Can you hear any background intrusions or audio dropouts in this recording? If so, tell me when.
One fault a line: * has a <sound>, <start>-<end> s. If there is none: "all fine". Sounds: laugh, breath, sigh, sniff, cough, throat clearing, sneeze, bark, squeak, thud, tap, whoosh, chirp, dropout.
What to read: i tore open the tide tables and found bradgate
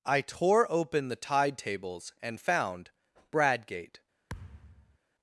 * has a thud, 4.3-5.0 s